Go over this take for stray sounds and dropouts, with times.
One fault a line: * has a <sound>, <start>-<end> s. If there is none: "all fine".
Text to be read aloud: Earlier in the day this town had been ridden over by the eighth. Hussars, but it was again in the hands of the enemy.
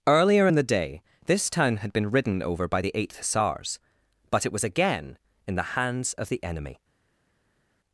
all fine